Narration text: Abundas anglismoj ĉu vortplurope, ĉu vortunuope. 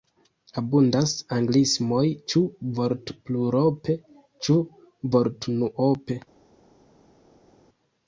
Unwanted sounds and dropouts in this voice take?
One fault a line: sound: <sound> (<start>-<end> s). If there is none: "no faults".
no faults